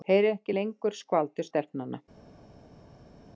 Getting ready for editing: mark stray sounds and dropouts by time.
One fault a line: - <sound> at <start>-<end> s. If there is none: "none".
none